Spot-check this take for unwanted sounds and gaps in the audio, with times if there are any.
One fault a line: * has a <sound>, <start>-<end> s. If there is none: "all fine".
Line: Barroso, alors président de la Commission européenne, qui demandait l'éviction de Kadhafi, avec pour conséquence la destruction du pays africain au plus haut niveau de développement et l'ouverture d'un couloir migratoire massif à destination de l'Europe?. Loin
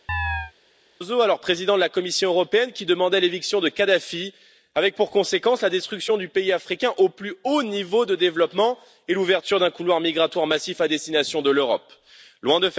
* has a chirp, 0.1-0.5 s